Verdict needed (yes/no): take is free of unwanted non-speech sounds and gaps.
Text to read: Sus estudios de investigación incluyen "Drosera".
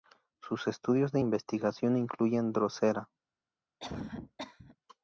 no